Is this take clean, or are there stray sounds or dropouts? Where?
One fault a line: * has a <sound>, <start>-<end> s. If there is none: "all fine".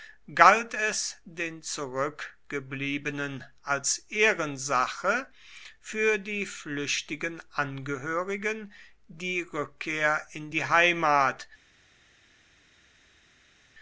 all fine